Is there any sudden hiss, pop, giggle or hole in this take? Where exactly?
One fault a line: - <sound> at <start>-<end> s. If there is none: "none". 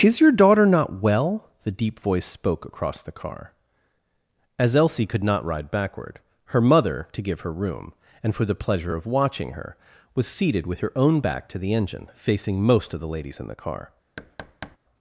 - thud at 14.2-14.8 s